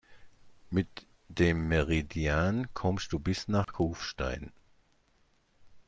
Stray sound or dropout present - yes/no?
yes